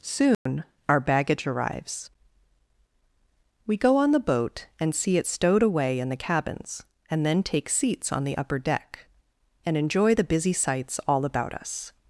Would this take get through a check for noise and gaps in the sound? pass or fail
fail